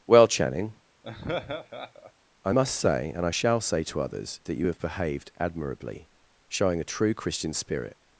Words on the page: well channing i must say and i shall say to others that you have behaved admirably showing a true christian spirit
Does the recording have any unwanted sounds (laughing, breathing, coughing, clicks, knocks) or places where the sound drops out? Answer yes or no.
yes